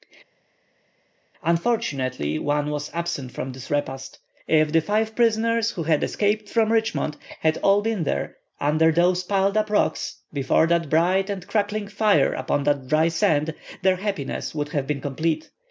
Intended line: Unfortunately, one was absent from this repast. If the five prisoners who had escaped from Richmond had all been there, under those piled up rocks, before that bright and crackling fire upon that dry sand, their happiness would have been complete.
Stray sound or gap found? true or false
false